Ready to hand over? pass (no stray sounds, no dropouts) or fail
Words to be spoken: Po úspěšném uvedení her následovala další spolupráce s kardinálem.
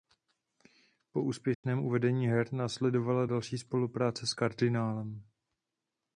fail